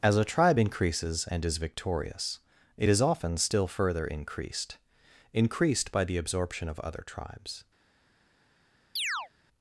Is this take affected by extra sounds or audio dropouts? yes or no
yes